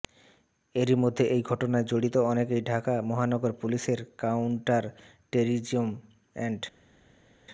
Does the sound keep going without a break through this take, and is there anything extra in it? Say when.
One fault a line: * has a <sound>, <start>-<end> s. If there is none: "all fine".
all fine